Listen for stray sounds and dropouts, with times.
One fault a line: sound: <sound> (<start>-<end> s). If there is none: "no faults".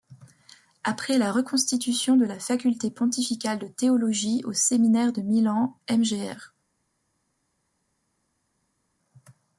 no faults